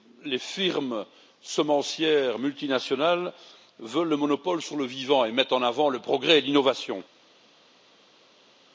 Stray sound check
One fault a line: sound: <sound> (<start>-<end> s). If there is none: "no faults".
no faults